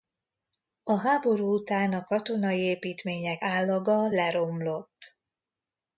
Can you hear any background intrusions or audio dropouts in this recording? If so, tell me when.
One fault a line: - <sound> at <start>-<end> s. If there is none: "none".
none